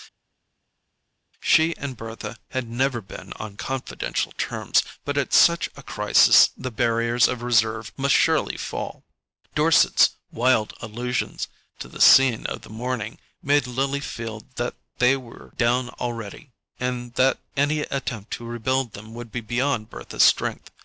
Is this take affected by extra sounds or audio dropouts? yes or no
no